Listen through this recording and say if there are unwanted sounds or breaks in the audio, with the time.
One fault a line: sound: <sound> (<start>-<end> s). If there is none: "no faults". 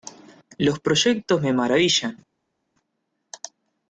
no faults